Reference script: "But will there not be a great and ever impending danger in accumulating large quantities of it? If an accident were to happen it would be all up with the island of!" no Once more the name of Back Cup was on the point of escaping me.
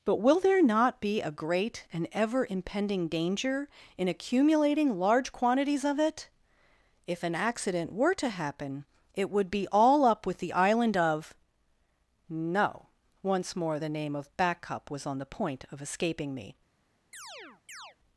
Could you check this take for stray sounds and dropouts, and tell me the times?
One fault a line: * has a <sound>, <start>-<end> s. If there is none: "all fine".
* has a chirp, 17.1-18.0 s